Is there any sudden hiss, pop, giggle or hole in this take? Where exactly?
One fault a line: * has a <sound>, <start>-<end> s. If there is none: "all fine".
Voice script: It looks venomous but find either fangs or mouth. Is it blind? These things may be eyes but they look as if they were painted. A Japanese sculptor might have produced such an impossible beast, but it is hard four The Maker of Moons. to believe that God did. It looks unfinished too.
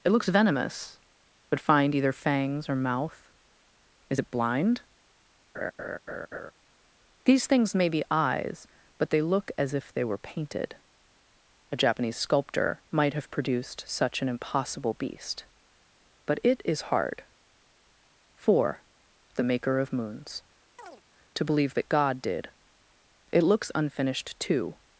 * has a laugh, 5.5-6.5 s
* has a chirp, 20.8-21.0 s